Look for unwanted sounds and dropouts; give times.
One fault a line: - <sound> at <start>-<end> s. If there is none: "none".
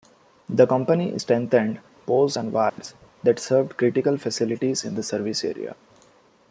- dropout at 2.7-2.8 s